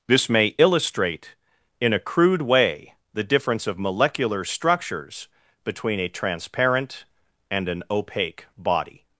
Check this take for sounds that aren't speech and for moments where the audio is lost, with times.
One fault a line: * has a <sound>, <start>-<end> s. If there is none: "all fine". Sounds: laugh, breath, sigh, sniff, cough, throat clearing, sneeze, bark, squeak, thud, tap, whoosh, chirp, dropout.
all fine